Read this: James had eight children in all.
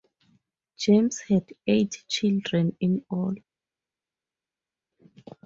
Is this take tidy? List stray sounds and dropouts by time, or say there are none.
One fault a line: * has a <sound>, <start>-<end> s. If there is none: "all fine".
all fine